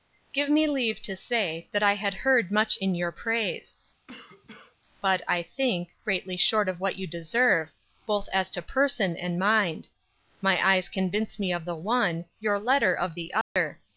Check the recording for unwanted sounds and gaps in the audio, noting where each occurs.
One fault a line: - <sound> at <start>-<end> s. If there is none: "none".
- cough at 4.1-4.8 s
- dropout at 13.4-13.6 s